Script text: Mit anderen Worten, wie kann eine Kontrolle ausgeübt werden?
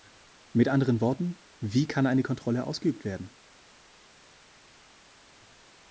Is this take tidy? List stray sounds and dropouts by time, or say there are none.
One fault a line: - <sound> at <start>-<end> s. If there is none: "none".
none